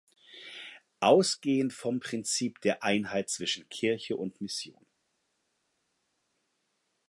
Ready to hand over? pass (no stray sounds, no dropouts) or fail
pass